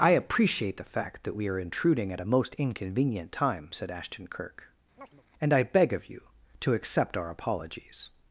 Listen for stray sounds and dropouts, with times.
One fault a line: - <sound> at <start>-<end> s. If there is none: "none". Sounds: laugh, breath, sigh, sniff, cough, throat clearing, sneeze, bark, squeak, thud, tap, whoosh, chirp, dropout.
- chirp at 5.0-5.2 s